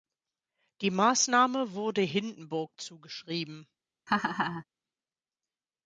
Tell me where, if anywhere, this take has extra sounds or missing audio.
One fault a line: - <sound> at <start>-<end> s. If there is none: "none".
- laugh at 4.1-4.6 s